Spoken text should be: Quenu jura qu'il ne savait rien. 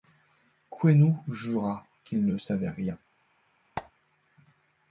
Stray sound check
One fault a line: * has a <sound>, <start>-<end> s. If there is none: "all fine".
* has a squeak, 3.8-3.9 s